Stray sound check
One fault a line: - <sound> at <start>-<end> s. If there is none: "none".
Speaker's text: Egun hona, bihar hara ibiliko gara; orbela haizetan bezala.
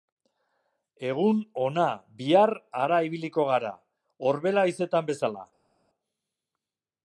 none